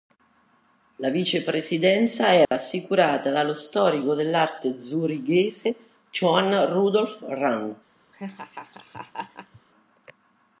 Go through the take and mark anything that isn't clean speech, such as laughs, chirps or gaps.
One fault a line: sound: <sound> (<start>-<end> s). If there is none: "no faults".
sound: dropout (2.5-2.5 s)
sound: laugh (8.1-9.6 s)